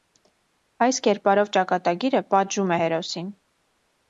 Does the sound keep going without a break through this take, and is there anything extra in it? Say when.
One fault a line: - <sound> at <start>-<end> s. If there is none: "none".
none